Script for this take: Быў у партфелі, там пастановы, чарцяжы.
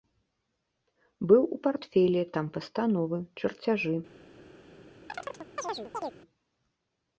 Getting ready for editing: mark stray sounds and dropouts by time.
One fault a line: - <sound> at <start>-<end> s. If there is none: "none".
- chirp at 5.1-6.2 s